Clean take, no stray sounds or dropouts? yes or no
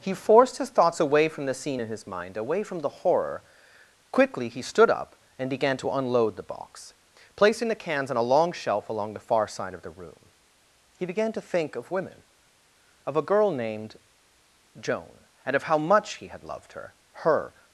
yes